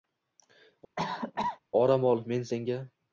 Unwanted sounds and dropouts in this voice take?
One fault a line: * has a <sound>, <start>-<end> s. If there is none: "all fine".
* has a cough, 1.0-1.6 s